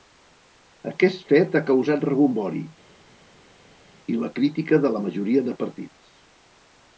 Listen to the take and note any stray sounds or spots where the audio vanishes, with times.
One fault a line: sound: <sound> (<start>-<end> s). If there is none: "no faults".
no faults